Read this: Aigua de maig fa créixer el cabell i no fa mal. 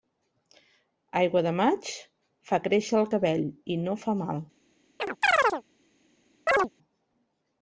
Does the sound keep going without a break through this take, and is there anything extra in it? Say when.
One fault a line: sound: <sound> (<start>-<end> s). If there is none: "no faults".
sound: chirp (5.0-5.6 s)
sound: chirp (6.5-6.7 s)